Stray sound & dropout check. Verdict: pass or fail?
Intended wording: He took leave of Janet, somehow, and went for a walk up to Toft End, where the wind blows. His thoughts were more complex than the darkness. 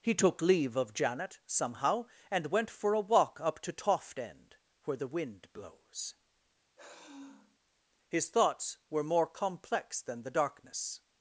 fail